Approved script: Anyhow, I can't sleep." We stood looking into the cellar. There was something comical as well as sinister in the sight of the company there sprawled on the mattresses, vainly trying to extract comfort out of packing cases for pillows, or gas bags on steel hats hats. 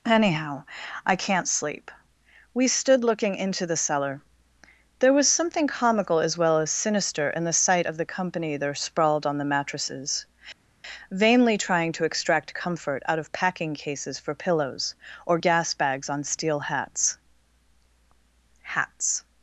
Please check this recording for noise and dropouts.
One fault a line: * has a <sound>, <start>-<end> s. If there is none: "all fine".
all fine